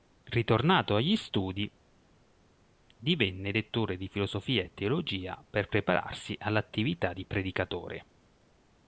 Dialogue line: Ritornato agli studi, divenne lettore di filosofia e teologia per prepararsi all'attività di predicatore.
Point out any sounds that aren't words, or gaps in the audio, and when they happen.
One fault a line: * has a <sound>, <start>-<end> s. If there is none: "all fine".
all fine